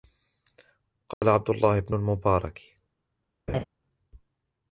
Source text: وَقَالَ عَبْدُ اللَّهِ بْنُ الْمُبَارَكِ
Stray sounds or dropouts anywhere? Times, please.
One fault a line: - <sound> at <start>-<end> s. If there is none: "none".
- dropout at 1.1-1.2 s
- laugh at 3.5-3.6 s